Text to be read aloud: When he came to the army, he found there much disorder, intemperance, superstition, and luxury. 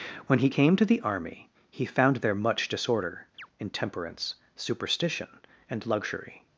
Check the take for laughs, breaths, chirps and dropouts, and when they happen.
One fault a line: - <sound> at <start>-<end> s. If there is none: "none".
- chirp at 3.4-3.5 s